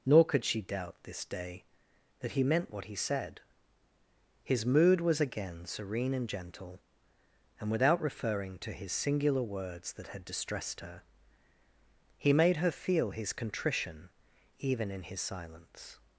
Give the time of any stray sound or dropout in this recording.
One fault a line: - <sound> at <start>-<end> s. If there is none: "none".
none